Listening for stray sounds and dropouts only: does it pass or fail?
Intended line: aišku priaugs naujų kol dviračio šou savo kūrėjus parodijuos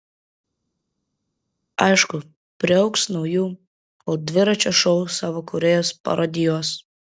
pass